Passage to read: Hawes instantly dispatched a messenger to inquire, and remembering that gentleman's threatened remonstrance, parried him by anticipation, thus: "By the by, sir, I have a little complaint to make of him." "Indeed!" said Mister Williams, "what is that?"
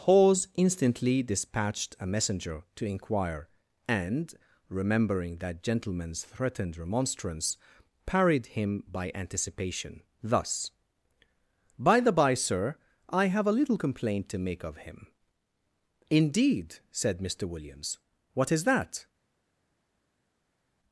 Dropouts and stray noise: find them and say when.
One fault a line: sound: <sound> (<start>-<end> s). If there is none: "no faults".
no faults